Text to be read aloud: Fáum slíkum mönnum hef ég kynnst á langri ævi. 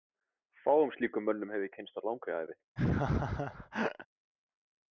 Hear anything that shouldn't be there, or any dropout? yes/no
yes